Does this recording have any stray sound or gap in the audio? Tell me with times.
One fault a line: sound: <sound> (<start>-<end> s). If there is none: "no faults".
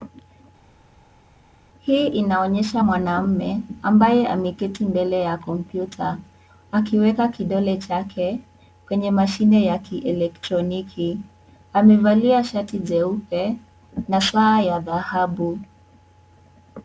no faults